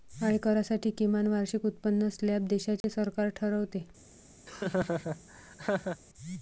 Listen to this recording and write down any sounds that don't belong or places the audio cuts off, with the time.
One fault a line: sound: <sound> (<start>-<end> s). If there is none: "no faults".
sound: dropout (2.8-2.8 s)
sound: laugh (4.5-6.0 s)